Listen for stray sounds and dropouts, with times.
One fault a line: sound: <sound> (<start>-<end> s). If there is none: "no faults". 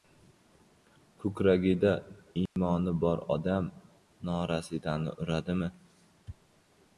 sound: dropout (2.5-2.6 s)